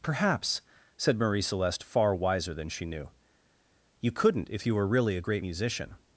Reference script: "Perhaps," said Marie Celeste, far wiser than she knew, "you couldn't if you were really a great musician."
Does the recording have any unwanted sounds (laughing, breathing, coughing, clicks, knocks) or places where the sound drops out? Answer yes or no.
no